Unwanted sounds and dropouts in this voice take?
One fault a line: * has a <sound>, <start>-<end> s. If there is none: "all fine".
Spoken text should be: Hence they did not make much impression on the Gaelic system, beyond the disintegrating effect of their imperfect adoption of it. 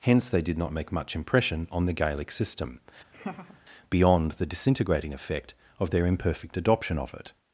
* has a laugh, 3.1-3.6 s